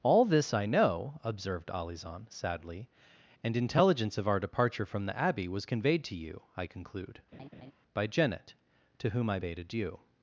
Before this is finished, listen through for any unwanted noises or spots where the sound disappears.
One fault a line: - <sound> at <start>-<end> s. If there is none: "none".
- laugh at 7.3-7.7 s